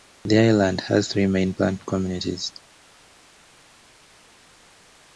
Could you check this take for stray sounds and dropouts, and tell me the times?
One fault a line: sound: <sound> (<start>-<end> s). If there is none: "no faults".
no faults